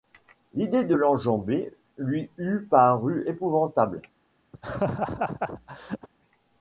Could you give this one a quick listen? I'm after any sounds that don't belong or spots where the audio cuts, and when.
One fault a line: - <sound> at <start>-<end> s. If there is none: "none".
- laugh at 4.5-6.1 s